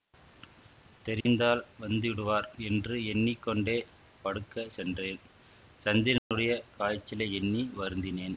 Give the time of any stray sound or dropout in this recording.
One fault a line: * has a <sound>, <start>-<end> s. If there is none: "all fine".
* has a dropout, 1.2-1.3 s
* has a dropout, 6.2-6.3 s